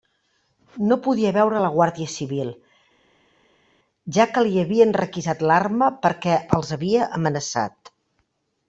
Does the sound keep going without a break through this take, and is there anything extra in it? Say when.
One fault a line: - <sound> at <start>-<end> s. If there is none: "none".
none